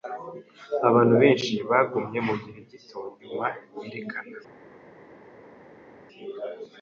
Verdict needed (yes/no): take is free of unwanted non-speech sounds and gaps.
yes